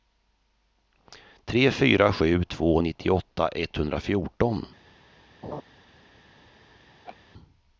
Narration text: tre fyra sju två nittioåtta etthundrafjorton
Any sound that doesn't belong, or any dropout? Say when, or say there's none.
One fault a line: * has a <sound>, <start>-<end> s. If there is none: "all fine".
* has a laugh, 5.4-5.6 s
* has a laugh, 7.0-7.2 s